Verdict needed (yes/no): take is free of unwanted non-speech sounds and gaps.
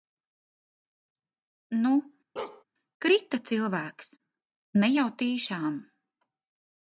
no